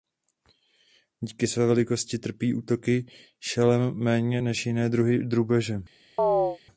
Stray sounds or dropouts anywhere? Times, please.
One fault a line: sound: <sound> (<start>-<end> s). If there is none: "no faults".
sound: chirp (6.2-6.6 s)